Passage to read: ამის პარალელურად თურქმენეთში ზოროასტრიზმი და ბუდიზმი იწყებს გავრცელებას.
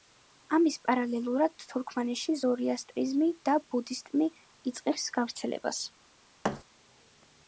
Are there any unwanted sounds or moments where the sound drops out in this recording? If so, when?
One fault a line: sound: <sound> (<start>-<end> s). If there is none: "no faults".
sound: thud (6.4-6.6 s)